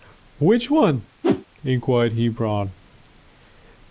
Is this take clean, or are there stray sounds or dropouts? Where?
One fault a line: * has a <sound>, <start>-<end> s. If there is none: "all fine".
* has a whoosh, 1.2-1.5 s